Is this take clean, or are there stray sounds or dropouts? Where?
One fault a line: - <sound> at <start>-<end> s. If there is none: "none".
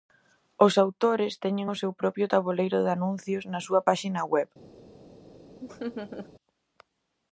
- laugh at 5.6-6.3 s